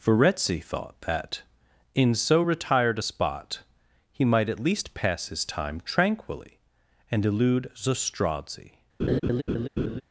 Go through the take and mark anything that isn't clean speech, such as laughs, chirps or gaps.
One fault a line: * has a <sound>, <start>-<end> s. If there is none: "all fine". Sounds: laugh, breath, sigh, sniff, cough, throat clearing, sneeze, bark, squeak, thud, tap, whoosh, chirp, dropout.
* has a laugh, 9.0-10.0 s